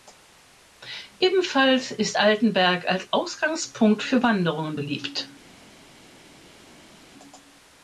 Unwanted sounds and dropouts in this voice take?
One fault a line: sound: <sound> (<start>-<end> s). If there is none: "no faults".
no faults